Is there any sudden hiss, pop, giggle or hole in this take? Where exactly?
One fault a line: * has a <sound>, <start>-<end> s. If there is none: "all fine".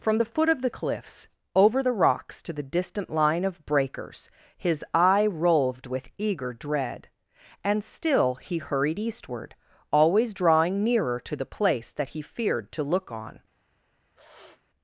* has a sniff, 14.2-14.6 s